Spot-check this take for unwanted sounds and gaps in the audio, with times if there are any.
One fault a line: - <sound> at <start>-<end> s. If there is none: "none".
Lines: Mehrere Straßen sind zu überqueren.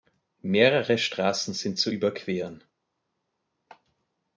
none